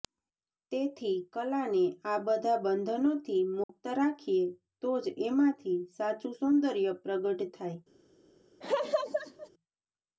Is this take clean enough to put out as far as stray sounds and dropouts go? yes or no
no